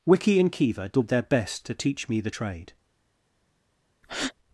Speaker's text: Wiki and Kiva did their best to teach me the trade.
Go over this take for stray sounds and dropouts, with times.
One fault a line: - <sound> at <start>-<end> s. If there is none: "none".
- breath at 4.0-4.3 s